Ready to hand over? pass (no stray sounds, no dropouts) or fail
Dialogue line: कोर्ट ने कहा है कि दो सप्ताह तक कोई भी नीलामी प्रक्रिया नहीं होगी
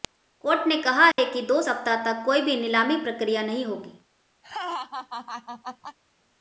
fail